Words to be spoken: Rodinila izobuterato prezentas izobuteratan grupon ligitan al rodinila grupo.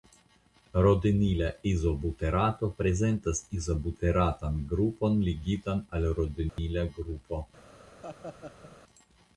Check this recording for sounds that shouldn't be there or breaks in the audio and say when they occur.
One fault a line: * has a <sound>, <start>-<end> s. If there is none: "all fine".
* has a dropout, 6.5-6.6 s
* has a laugh, 8.0-8.8 s